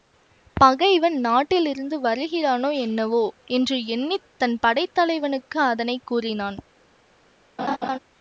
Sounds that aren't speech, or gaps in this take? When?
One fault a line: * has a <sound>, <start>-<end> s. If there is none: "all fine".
* has a laugh, 7.6-8.0 s